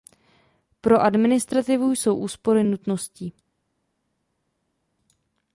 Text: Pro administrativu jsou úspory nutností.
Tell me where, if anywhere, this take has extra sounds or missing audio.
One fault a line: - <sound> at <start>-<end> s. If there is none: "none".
none